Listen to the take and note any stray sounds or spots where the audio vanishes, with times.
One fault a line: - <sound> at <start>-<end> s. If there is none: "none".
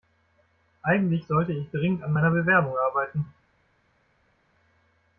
none